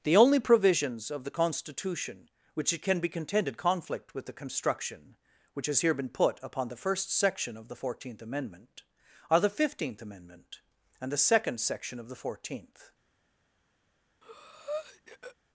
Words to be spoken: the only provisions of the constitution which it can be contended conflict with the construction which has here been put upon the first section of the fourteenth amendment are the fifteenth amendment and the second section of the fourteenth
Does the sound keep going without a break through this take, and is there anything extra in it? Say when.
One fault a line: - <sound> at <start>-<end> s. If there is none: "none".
- breath at 14.2-15.4 s